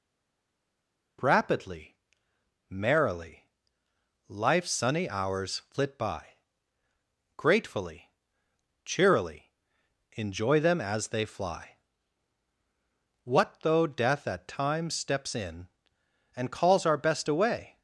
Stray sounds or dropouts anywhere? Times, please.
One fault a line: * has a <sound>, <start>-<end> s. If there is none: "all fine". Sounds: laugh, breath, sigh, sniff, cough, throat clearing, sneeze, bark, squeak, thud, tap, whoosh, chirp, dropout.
all fine